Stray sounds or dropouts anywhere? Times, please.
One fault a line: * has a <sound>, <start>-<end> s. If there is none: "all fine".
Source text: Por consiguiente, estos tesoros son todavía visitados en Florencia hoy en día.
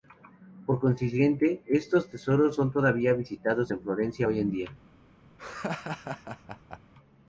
* has a laugh, 5.4-6.8 s